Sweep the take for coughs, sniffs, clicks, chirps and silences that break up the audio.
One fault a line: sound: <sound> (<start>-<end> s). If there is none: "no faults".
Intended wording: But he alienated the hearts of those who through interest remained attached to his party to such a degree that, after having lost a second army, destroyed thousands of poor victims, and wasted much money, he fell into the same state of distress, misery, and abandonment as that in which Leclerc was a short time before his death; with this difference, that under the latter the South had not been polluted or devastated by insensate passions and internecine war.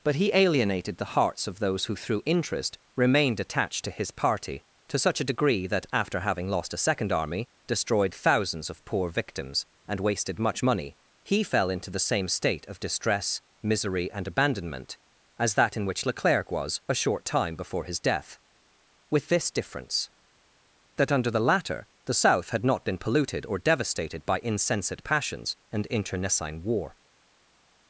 no faults